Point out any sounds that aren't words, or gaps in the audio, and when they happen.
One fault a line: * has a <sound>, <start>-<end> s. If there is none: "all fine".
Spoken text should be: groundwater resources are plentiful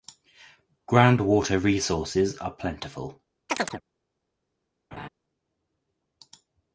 * has a chirp, 3.5-3.8 s
* has a laugh, 4.9-5.1 s